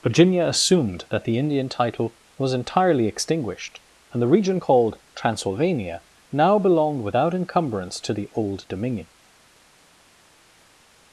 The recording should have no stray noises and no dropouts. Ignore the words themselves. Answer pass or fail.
pass